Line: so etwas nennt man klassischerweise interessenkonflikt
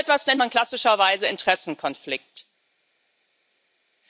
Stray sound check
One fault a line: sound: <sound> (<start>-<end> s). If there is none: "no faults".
no faults